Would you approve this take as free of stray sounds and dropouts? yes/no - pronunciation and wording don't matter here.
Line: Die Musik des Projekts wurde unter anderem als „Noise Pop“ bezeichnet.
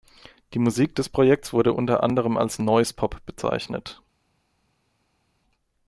yes